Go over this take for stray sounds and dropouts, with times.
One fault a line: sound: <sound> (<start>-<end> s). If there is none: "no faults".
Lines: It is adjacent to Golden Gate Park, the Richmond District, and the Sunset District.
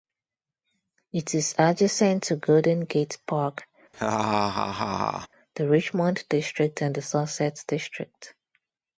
sound: laugh (3.9-5.3 s)